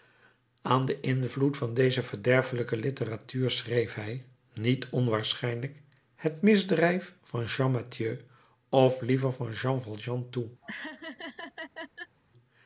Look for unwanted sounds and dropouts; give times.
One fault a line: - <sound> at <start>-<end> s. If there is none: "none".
- laugh at 10.6-12.2 s